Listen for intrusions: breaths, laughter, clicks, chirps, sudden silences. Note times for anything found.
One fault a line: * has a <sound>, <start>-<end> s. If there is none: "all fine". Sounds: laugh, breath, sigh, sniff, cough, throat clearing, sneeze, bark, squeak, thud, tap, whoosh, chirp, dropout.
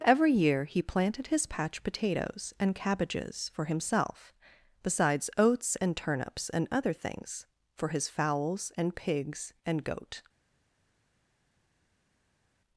all fine